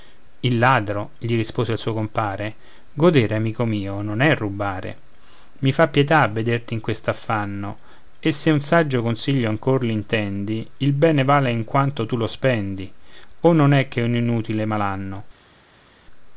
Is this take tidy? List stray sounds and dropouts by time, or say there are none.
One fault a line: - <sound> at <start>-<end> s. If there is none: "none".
none